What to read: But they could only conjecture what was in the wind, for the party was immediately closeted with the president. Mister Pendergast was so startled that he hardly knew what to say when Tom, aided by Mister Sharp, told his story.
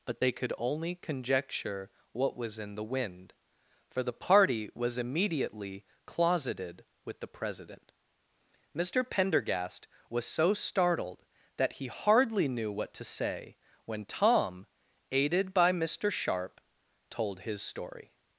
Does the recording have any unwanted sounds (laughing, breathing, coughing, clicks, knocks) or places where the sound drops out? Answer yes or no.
no